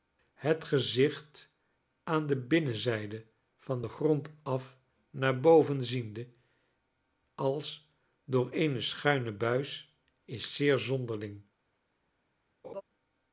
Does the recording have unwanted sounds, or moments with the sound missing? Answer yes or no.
yes